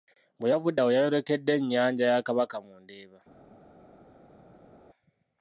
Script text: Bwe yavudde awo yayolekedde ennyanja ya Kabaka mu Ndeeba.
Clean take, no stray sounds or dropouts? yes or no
yes